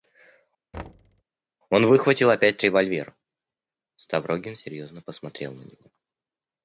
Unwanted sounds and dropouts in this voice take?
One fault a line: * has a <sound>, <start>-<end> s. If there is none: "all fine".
* has a thud, 0.7-1.2 s